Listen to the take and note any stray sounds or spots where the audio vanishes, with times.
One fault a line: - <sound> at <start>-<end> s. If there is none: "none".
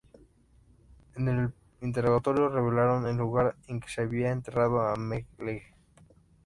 none